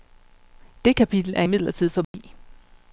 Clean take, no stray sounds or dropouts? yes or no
no